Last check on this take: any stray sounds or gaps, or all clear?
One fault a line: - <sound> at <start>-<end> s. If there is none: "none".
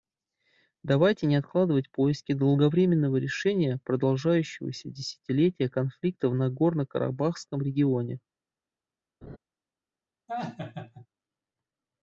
- laugh at 9.2-9.4 s
- laugh at 10.3-11.1 s